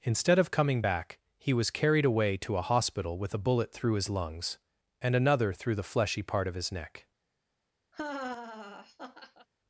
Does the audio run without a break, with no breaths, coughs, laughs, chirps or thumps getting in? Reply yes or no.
no